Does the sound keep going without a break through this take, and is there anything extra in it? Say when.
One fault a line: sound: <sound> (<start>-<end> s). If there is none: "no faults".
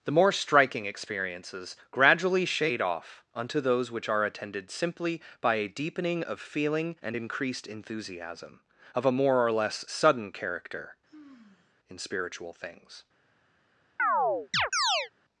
sound: sigh (11.1-11.7 s)
sound: chirp (14.0-15.1 s)